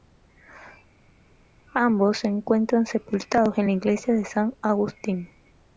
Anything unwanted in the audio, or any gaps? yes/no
no